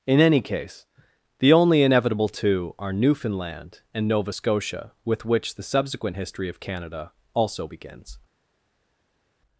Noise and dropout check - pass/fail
pass